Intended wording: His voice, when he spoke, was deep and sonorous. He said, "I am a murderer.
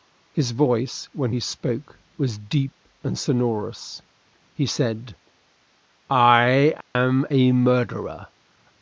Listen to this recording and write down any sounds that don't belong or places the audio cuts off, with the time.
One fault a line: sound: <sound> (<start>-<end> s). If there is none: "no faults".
sound: dropout (6.8-7.0 s)